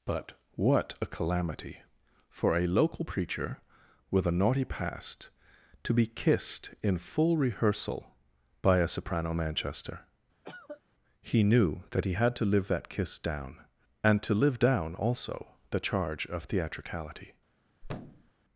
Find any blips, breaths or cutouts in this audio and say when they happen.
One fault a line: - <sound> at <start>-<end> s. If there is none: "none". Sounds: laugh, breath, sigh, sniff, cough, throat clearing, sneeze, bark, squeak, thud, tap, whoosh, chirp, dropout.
- cough at 10.4-10.8 s
- thud at 17.8-18.3 s